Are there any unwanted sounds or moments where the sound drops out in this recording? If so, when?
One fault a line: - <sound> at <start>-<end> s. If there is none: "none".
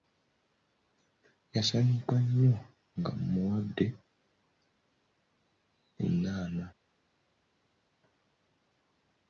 none